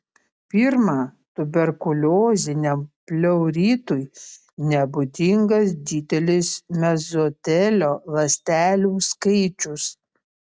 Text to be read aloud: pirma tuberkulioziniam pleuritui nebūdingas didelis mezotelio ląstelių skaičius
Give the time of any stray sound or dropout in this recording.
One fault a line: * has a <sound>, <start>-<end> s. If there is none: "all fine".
all fine